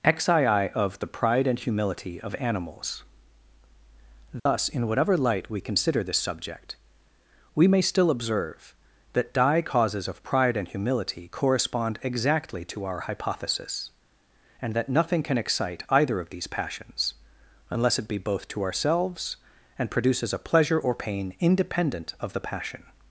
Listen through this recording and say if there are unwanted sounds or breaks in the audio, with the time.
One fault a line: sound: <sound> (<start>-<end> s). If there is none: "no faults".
sound: dropout (4.4-4.5 s)